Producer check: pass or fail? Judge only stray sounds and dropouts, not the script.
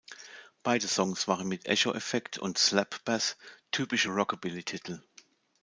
pass